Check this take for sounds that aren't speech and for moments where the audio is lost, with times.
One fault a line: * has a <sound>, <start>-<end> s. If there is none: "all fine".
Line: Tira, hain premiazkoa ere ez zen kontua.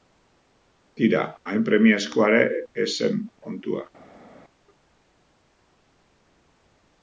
all fine